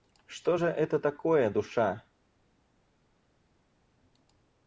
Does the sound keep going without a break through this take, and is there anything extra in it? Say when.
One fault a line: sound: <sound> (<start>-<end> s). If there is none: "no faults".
no faults